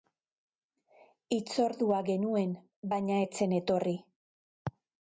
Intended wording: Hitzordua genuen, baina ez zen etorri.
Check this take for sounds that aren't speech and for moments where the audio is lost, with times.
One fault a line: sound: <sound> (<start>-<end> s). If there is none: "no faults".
no faults